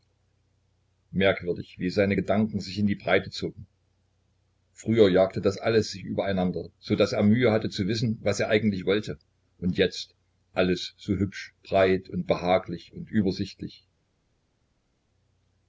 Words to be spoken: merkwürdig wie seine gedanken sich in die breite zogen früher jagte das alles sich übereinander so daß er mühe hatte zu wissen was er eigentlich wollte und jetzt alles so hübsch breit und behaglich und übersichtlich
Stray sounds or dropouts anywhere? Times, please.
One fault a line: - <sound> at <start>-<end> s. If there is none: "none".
none